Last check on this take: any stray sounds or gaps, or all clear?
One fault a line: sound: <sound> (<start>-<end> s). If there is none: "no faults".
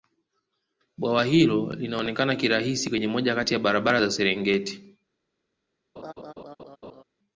sound: laugh (6.0-7.0 s)